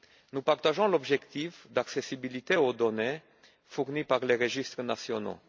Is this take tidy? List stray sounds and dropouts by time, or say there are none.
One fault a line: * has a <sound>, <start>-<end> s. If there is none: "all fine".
all fine